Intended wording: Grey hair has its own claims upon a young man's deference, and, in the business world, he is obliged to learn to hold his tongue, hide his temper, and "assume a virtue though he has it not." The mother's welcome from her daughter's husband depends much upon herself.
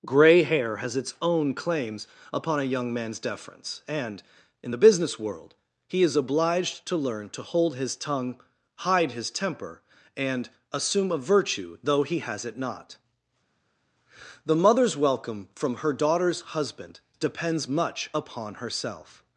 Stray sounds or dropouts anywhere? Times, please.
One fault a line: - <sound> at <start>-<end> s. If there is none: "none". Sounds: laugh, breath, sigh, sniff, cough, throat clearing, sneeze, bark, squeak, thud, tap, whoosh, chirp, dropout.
none